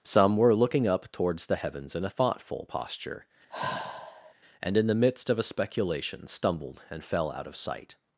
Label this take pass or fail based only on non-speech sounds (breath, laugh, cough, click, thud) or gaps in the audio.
fail